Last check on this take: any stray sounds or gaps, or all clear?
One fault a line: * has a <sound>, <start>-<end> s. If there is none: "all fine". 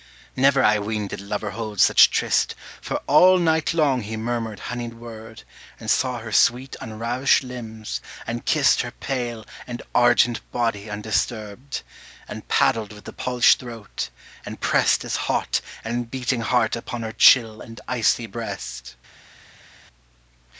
all fine